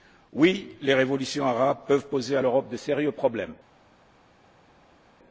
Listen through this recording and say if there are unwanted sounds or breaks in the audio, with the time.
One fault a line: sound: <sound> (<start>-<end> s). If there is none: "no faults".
no faults